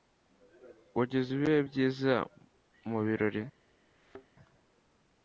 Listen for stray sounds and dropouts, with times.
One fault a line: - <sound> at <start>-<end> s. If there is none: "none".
- thud at 3.9-4.3 s